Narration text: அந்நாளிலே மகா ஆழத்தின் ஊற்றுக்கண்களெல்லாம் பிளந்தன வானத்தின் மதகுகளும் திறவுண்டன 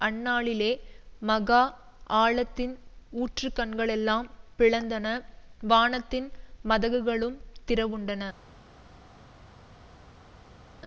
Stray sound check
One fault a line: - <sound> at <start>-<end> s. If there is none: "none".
none